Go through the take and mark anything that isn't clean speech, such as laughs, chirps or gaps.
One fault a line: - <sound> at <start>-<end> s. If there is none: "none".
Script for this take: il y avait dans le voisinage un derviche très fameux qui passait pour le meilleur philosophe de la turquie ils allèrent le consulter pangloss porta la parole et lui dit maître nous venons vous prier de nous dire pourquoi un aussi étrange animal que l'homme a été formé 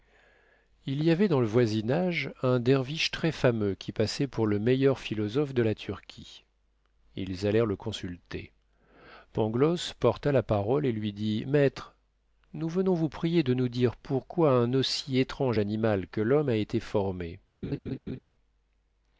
- laugh at 17.6-18.2 s